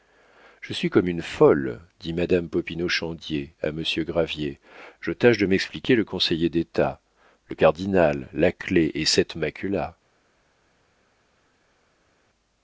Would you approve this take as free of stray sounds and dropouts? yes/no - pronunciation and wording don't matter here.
yes